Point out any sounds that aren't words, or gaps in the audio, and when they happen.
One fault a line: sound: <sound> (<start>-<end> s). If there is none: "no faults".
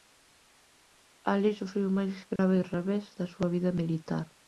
sound: dropout (2.4-2.4 s)